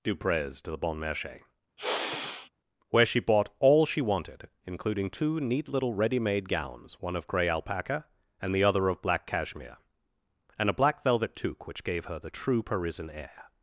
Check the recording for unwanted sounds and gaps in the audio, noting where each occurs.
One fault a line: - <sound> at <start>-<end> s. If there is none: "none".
- sigh at 1.8-2.5 s